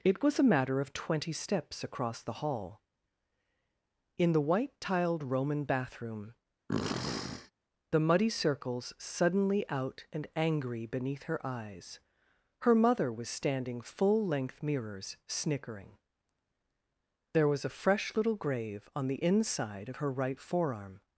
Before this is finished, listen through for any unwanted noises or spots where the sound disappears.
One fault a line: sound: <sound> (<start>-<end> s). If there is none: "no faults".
sound: sniff (6.7-7.5 s)